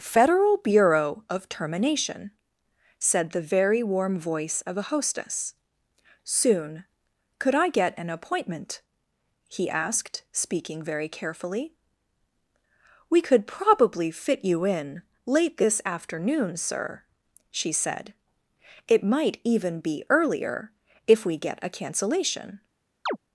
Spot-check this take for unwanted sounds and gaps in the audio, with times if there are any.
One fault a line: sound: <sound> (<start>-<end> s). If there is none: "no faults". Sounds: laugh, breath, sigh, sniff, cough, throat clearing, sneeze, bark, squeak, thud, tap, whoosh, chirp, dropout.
sound: chirp (23.1-23.2 s)